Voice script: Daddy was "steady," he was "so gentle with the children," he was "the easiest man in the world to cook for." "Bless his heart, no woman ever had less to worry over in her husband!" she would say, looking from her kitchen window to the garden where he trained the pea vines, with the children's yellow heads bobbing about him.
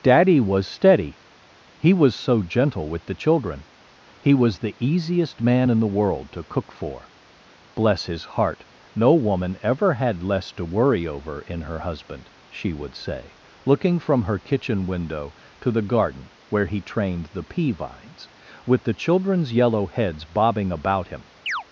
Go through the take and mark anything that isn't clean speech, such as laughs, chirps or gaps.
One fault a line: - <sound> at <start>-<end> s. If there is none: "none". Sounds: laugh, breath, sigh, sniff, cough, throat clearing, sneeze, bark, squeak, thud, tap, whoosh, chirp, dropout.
- chirp at 21.5-21.6 s